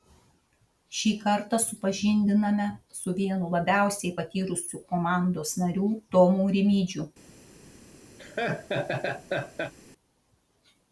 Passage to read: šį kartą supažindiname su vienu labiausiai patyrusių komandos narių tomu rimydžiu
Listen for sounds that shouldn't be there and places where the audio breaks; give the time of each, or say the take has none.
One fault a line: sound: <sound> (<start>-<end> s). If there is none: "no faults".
sound: laugh (8.2-9.7 s)